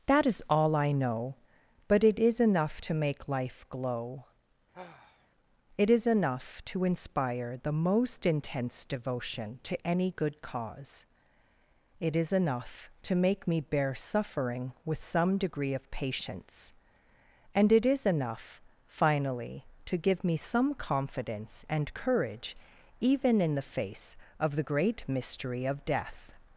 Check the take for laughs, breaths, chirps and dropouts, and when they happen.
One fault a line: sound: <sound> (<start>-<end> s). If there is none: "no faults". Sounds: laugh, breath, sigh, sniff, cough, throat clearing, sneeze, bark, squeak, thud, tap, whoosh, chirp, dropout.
sound: sigh (4.7-5.3 s)